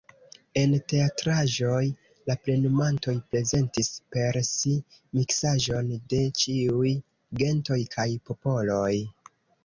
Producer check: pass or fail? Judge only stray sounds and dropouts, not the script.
pass